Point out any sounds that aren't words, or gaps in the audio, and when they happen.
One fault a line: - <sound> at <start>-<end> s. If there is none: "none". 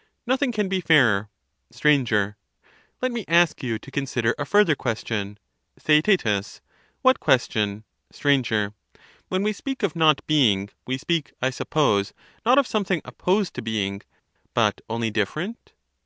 none